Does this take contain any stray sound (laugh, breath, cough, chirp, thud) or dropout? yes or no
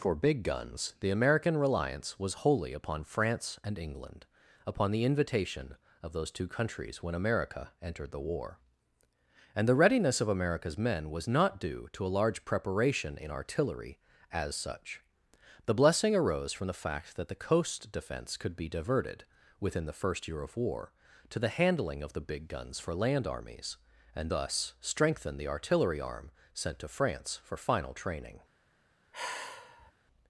yes